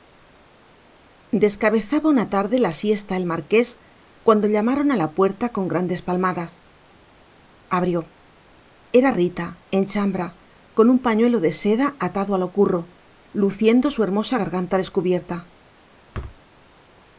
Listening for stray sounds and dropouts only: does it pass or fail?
fail